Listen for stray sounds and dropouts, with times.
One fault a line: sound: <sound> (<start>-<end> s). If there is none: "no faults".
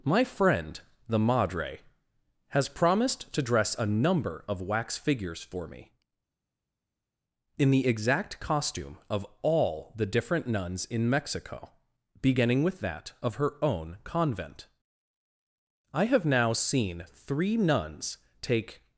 no faults